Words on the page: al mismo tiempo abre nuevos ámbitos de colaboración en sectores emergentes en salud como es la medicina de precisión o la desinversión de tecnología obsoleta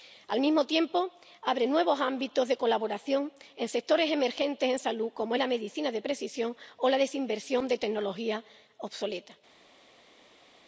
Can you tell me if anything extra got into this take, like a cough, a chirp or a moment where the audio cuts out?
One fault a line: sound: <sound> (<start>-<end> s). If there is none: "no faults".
no faults